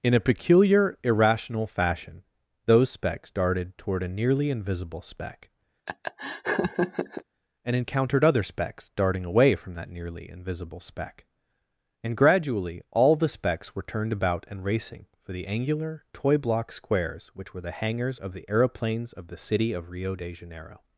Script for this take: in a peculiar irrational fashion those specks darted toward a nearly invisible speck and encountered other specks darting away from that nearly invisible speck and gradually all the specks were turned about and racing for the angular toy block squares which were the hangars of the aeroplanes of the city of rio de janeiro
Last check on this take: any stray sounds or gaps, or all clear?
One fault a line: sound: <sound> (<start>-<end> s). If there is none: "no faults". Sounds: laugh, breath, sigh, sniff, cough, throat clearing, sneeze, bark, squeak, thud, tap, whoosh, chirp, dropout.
sound: laugh (5.9-7.2 s)